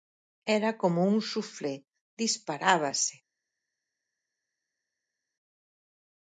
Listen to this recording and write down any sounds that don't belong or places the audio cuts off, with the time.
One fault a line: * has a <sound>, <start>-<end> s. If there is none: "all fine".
all fine